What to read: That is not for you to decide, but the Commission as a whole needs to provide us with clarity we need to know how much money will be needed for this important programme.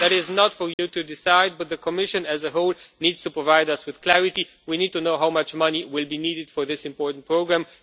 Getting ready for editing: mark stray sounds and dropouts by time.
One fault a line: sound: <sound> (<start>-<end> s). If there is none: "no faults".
sound: dropout (0.7-0.8 s)